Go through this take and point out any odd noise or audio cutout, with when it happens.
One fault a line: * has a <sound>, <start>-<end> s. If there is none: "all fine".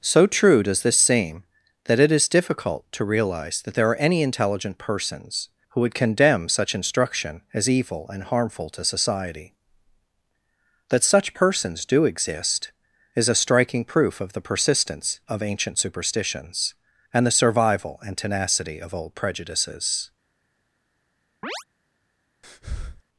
* has a chirp, 21.4-21.6 s
* has a breath, 22.4-23.0 s